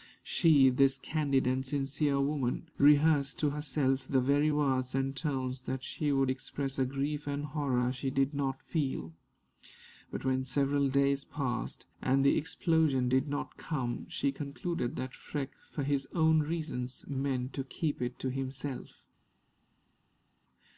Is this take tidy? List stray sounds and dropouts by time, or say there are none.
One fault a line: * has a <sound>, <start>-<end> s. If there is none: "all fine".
all fine